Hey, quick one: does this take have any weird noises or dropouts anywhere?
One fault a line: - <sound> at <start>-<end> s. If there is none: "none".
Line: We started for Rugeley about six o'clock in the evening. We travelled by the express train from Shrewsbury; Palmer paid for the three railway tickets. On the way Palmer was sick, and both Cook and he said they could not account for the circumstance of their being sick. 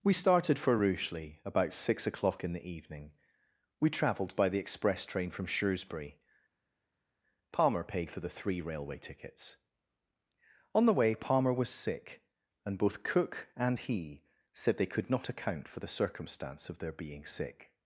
none